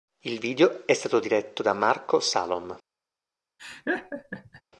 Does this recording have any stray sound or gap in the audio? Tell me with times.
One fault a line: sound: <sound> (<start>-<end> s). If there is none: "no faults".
sound: laugh (3.6-4.6 s)